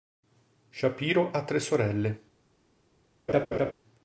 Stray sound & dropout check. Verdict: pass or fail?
fail